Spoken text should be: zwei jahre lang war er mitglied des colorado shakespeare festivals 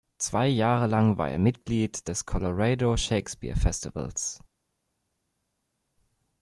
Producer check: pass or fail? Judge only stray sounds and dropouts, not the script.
pass